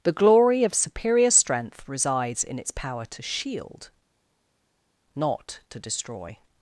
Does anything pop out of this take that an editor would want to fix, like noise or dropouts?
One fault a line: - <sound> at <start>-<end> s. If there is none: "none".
none